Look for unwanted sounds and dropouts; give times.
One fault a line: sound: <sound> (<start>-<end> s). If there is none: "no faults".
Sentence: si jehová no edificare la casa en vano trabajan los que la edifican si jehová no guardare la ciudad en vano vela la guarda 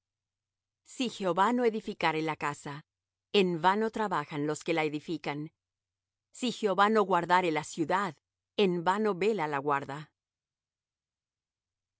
no faults